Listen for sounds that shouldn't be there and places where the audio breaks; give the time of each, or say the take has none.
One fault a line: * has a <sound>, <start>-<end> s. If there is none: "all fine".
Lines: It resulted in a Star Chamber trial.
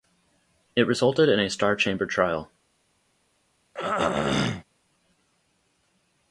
* has a throat clearing, 3.7-4.6 s